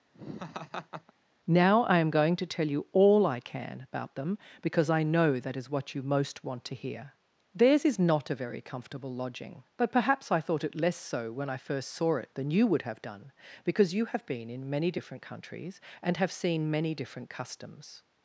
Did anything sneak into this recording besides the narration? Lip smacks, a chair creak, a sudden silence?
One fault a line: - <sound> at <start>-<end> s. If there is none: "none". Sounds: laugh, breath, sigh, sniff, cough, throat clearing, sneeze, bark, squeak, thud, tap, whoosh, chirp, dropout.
- laugh at 0.1-1.1 s